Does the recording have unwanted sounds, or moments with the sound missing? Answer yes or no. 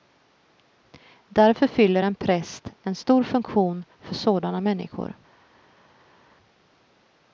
no